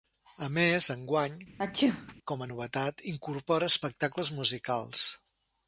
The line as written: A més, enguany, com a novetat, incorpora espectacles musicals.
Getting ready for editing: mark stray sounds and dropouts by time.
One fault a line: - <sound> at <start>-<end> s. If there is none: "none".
- sneeze at 1.6-2.1 s